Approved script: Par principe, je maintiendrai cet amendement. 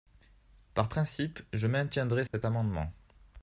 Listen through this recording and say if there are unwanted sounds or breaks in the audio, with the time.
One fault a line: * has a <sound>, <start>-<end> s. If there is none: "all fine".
* has a dropout, 2.3-2.3 s